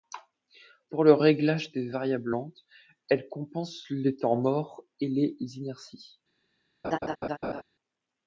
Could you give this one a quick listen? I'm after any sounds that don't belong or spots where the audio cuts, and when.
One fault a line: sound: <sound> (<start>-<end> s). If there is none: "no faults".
sound: laugh (6.8-7.6 s)